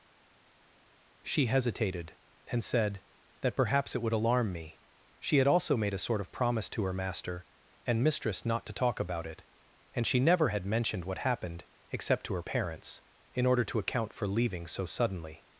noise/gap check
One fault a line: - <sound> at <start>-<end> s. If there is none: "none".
none